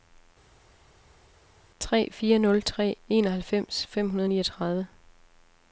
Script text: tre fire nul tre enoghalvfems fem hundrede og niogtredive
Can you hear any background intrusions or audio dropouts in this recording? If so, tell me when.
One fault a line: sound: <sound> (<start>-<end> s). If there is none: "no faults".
no faults